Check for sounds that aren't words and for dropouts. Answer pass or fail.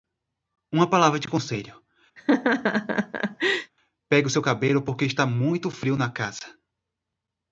fail